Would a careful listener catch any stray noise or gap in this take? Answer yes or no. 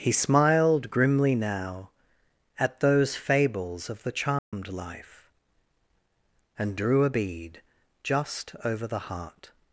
yes